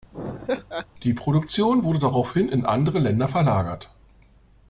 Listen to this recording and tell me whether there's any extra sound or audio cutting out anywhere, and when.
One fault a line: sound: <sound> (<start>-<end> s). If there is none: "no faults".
sound: laugh (0.1-0.9 s)